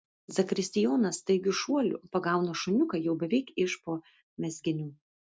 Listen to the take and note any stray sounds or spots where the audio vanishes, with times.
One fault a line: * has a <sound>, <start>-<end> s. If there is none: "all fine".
all fine